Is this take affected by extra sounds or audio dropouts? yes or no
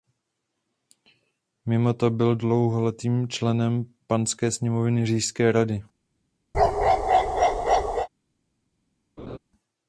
yes